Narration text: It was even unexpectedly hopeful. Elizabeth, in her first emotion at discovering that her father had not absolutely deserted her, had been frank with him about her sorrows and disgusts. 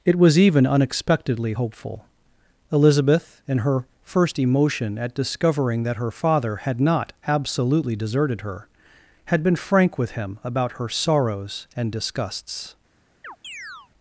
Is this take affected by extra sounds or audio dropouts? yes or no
yes